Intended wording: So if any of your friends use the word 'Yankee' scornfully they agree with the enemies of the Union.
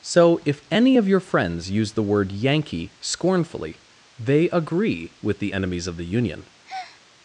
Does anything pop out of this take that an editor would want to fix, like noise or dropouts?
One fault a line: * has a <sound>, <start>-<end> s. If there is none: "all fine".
* has a breath, 6.7-7.0 s